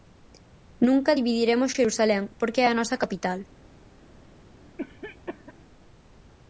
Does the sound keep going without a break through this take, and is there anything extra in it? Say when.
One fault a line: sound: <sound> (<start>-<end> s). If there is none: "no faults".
sound: cough (4.8-5.5 s)